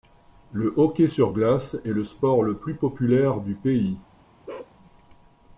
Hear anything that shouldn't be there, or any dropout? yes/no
yes